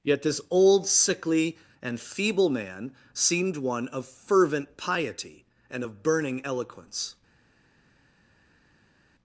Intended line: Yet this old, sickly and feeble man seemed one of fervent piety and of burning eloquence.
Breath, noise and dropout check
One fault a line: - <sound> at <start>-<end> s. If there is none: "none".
none